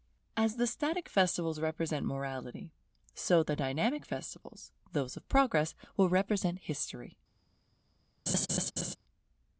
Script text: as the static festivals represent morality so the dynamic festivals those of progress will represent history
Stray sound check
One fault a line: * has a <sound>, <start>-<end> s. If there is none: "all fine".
* has a laugh, 8.3-9.0 s